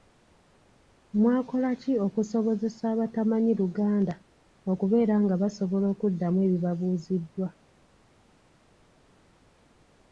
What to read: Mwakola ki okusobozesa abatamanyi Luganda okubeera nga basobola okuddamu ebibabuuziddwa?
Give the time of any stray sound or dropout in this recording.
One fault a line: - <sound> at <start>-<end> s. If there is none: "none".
none